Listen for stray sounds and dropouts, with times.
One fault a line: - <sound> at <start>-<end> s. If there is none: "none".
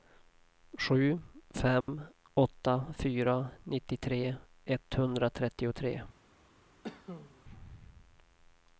- dropout at 1.8-1.9 s
- cough at 6.8-7.4 s